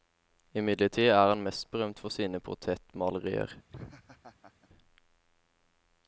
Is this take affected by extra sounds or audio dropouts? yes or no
yes